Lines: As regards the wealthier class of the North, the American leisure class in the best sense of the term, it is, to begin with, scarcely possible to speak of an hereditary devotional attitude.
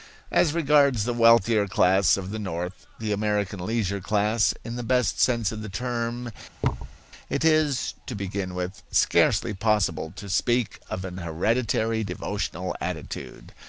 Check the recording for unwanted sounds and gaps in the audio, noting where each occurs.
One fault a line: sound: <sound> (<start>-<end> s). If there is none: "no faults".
sound: thud (6.6-7.0 s)